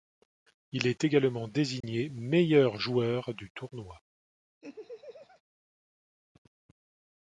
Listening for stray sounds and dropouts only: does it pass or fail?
fail